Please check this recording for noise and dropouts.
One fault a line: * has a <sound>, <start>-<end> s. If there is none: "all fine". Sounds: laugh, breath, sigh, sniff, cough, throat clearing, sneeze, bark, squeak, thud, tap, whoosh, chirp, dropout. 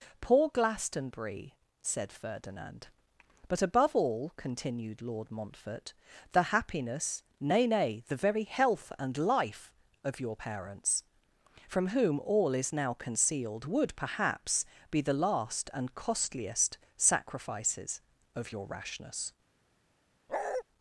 * has a bark, 20.3-20.6 s